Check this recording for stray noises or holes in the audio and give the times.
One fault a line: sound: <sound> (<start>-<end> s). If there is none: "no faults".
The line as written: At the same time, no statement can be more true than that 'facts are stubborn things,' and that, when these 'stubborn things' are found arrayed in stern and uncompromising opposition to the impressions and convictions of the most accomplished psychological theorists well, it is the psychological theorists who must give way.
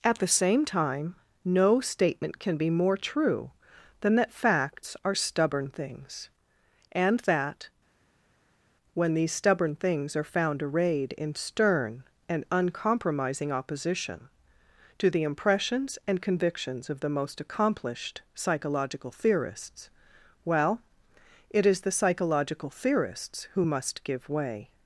no faults